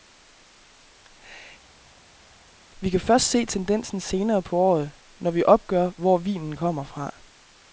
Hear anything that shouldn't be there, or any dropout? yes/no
no